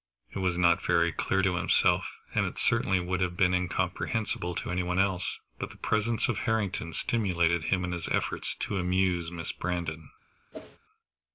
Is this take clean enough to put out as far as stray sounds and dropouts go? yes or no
no